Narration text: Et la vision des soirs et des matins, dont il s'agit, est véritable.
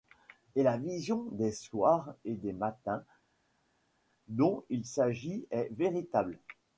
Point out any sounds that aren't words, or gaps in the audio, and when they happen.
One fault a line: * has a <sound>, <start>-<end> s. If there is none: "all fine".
all fine